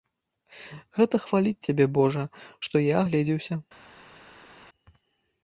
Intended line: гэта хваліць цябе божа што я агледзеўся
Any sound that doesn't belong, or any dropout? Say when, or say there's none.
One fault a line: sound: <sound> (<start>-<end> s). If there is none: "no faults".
no faults